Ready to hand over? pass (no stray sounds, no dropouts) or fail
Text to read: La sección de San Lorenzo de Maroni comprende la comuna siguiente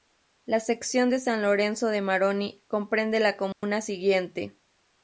fail